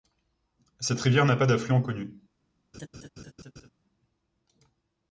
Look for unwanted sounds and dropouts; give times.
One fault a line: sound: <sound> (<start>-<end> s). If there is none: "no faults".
sound: laugh (2.7-3.7 s)